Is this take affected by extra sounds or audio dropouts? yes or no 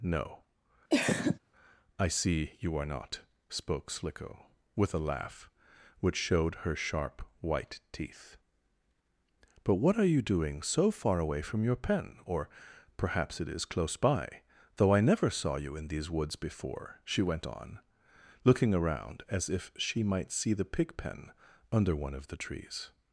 yes